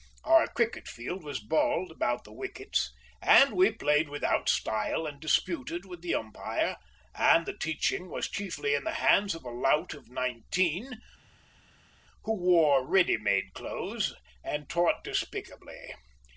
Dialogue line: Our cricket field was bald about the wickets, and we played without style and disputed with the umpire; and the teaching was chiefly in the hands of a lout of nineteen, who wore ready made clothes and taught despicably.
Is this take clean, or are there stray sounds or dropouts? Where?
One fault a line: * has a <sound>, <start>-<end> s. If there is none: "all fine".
all fine